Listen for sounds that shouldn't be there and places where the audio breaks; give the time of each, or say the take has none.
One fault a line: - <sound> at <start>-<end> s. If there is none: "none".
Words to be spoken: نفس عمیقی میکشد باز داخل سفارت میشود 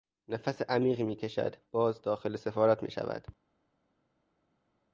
none